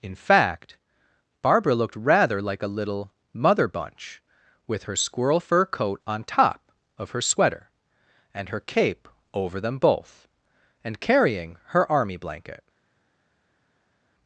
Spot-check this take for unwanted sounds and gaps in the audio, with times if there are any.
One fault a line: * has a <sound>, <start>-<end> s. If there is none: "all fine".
all fine